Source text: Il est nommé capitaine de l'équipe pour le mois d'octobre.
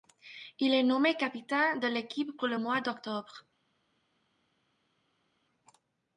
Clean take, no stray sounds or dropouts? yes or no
yes